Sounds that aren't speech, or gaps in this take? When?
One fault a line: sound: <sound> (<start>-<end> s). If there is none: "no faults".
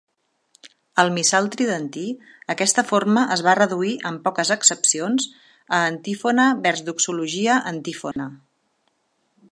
sound: dropout (8.1-8.2 s)